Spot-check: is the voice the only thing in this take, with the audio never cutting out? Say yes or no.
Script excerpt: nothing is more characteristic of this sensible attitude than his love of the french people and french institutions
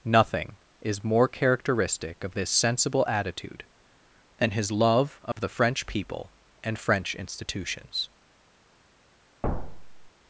no